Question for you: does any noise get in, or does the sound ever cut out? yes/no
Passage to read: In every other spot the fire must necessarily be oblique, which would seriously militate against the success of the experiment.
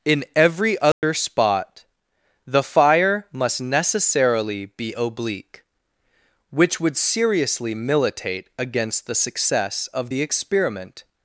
yes